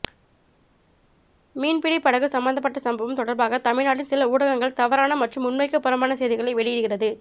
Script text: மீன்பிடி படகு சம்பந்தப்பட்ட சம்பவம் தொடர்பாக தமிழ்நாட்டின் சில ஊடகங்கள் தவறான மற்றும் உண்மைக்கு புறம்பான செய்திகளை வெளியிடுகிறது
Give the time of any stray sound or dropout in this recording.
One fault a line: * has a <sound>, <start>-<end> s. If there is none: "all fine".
all fine